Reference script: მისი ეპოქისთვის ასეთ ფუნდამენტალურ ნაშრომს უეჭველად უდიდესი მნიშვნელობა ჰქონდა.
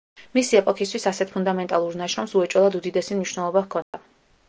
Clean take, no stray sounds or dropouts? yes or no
no